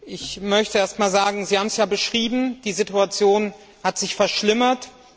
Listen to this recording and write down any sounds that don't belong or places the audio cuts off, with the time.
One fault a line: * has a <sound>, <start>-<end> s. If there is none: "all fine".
all fine